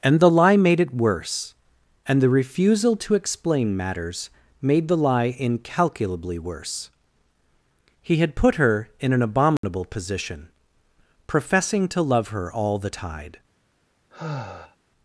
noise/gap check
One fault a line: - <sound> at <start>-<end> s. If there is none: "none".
- dropout at 9.6-9.6 s
- sigh at 14.1-14.8 s